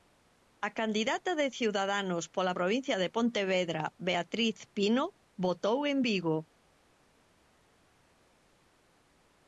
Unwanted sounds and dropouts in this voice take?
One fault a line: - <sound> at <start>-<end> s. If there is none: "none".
none